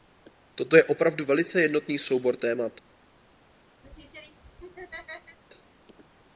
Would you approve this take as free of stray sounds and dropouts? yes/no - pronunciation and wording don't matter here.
no